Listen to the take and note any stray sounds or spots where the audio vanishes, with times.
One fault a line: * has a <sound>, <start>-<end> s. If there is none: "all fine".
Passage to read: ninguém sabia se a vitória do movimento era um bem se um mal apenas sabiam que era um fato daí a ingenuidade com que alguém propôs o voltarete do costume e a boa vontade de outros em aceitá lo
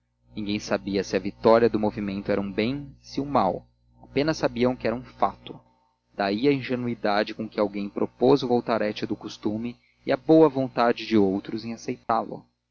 * has a dropout, 12.0-12.1 s